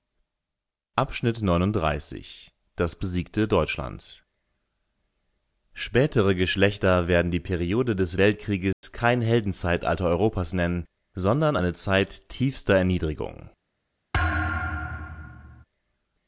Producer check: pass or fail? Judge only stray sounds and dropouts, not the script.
fail